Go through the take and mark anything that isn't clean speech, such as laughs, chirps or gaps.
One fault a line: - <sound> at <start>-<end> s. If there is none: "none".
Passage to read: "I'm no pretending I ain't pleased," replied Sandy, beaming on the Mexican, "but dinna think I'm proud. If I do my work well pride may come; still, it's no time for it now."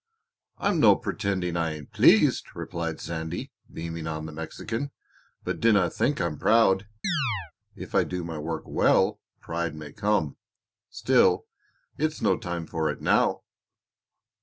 - chirp at 7.0-7.5 s